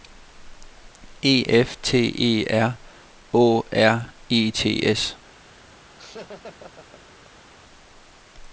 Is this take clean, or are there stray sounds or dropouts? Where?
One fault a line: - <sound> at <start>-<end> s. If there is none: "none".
- laugh at 6.0-7.5 s